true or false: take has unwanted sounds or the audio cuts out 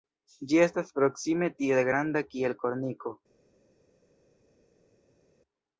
false